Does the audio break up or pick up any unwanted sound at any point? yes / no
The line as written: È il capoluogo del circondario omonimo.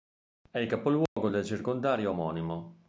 yes